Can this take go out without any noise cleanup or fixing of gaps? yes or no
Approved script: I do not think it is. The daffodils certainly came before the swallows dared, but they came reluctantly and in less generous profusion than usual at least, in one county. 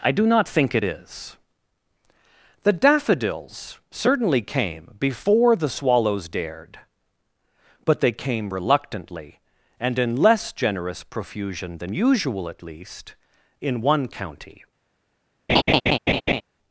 no